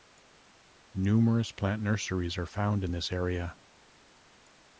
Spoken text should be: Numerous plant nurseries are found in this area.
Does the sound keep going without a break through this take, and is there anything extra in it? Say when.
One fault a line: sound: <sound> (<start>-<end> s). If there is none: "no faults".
no faults